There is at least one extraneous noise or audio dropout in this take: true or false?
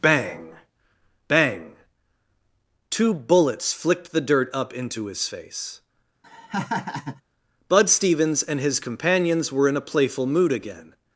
true